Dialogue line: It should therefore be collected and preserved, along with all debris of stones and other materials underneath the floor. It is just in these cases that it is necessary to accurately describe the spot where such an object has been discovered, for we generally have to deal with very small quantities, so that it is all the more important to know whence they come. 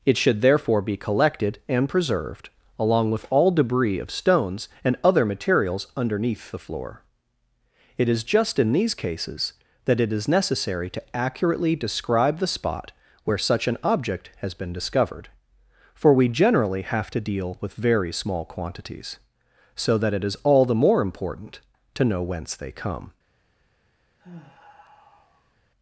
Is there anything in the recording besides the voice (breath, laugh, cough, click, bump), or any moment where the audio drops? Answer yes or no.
yes